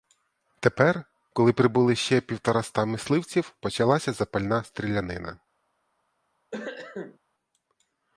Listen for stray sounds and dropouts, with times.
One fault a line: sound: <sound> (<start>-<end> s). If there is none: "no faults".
sound: cough (6.5-7.2 s)